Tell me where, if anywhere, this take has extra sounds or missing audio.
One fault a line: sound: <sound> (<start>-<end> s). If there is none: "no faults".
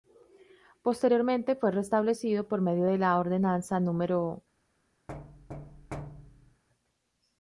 sound: thud (5.1-6.6 s)